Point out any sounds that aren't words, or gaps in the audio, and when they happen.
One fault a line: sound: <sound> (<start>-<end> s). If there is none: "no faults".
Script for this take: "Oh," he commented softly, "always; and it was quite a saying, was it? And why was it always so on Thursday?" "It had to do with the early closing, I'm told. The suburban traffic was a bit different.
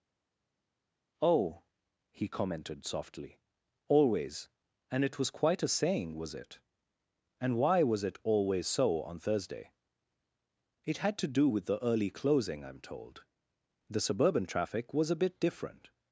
no faults